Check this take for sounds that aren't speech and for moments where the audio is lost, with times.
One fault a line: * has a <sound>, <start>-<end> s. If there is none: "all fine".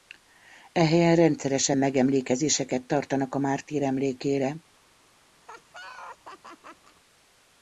* has a laugh, 5.4-7.0 s